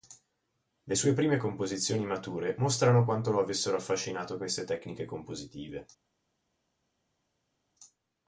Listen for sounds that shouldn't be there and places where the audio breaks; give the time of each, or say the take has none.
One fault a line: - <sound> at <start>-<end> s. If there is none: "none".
none